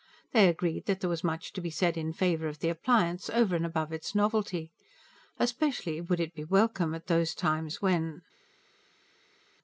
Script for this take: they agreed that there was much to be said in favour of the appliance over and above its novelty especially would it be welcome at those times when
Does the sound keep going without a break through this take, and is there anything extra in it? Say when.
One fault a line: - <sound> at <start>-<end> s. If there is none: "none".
none